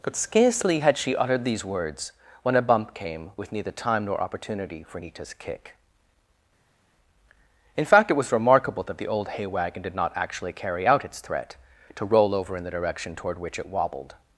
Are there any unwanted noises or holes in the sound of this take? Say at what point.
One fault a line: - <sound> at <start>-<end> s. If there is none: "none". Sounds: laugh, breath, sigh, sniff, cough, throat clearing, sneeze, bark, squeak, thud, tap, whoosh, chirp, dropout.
none